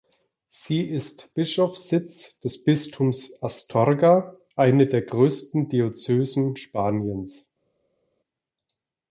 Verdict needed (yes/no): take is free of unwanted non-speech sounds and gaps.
yes